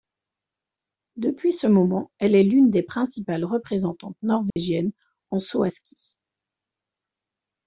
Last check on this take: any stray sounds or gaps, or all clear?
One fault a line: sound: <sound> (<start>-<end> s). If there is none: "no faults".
sound: dropout (4.5-4.6 s)